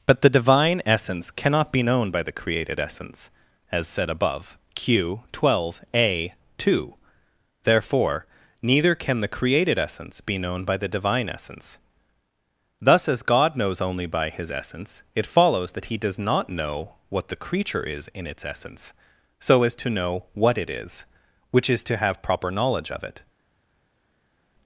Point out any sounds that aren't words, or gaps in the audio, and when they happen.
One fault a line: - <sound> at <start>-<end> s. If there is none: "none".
none